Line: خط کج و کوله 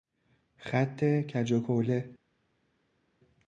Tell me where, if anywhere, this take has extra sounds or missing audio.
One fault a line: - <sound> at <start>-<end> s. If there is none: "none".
none